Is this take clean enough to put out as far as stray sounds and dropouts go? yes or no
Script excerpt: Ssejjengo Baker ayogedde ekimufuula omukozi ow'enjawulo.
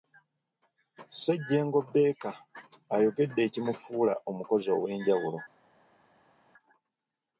yes